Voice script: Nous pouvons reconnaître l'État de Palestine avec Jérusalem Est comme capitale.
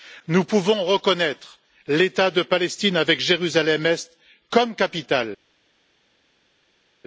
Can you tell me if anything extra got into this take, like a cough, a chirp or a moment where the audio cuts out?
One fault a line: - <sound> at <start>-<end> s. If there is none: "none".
none